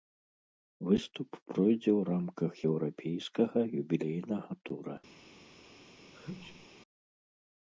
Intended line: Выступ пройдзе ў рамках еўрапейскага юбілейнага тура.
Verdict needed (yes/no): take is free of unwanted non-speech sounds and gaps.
no